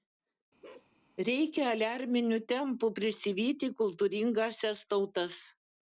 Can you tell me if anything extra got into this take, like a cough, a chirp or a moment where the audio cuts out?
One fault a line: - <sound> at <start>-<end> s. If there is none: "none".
- bark at 0.6-0.9 s